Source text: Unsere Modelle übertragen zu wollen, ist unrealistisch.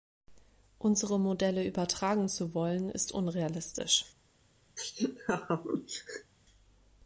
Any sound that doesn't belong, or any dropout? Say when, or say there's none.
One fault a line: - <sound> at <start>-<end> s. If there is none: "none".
- laugh at 4.8-6.3 s